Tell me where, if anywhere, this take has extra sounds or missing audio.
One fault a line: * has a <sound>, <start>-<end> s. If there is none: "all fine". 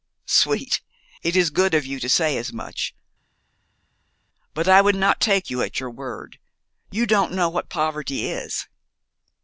all fine